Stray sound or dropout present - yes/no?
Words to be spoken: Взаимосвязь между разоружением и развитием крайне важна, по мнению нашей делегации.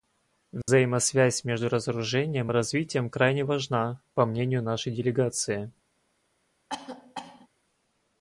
yes